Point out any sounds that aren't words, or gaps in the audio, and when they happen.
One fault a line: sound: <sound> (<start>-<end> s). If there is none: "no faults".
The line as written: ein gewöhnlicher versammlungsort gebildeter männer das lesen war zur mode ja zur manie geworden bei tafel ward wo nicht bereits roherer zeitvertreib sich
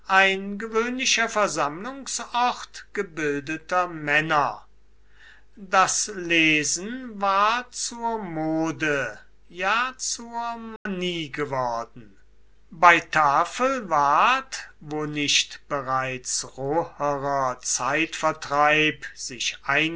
sound: dropout (10.8-10.9 s)